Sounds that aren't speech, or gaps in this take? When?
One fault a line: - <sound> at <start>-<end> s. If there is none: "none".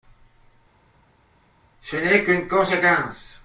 none